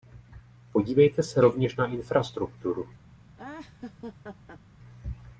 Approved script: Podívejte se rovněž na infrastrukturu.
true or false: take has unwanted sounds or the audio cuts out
true